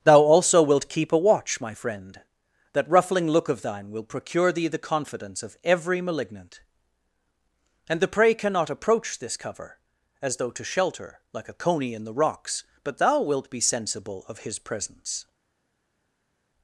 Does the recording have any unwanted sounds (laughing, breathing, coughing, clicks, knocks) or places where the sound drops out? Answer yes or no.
no